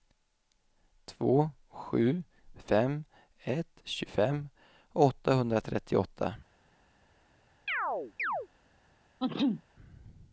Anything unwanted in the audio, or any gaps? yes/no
yes